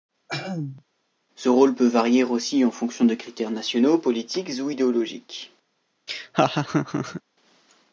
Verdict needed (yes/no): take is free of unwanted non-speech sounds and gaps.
no